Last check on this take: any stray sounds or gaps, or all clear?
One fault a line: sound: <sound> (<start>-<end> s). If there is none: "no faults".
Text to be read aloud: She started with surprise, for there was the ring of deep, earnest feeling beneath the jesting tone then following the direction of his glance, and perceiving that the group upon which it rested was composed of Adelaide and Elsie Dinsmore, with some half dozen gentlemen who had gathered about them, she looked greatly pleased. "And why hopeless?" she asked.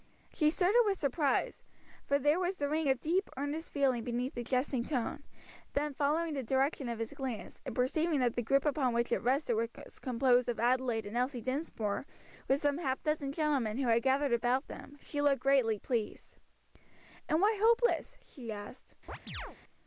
sound: chirp (19.1-19.6 s)